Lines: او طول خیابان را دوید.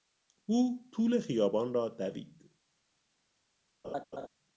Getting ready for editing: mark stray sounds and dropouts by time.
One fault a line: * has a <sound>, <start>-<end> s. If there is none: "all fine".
* has a laugh, 3.8-4.3 s